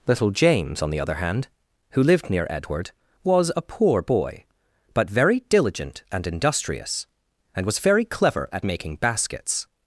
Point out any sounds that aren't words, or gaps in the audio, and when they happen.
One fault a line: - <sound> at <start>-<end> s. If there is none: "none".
none